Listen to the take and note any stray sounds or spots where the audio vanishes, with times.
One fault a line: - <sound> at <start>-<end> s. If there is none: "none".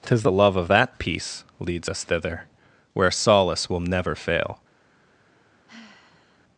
- sigh at 5.7-6.4 s